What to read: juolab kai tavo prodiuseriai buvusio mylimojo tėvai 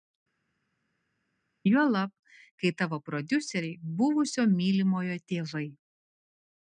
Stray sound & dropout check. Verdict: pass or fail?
pass